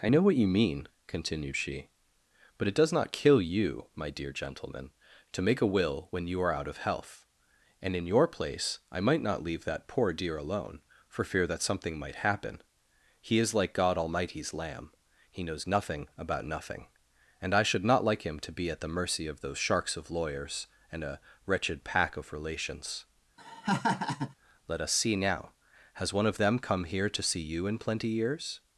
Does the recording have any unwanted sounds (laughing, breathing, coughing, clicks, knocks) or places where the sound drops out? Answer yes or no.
yes